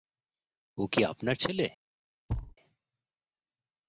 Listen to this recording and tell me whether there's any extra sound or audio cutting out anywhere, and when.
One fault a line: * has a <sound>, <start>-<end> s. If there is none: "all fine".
* has a thud, 2.3-2.6 s